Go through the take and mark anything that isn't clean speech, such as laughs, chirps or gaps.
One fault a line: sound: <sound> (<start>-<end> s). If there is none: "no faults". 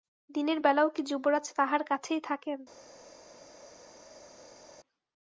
no faults